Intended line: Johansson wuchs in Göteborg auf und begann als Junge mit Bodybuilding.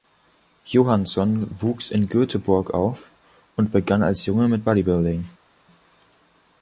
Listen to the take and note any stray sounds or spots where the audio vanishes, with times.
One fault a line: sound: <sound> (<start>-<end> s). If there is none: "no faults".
no faults